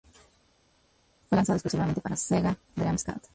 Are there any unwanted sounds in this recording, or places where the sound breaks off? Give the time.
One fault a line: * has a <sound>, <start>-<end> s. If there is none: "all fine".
all fine